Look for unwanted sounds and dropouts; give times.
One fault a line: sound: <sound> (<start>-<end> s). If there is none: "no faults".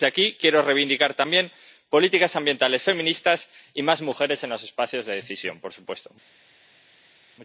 no faults